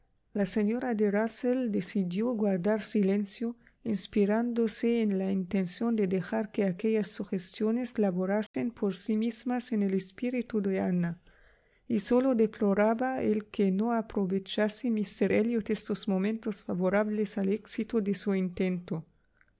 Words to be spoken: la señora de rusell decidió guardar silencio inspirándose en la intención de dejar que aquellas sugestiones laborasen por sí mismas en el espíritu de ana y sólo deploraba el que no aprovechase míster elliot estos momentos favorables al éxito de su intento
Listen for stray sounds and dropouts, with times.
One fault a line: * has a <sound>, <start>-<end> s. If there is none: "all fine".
* has a dropout, 8.5-8.5 s